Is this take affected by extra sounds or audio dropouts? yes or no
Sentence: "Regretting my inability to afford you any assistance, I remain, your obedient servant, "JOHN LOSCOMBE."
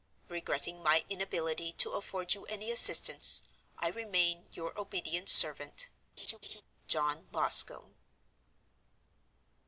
yes